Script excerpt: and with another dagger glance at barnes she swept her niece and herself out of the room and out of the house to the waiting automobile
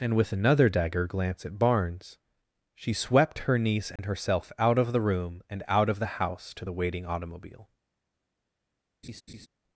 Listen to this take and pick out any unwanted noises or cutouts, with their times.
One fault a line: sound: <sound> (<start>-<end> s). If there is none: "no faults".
sound: dropout (4.0-4.0 s)
sound: laugh (9.0-9.5 s)